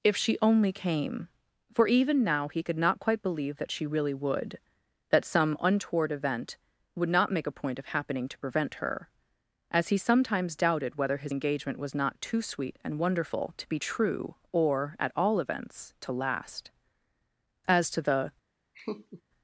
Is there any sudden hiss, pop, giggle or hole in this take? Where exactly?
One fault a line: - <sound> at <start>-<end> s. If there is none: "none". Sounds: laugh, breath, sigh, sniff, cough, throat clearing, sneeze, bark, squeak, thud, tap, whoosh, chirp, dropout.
- laugh at 18.7-19.2 s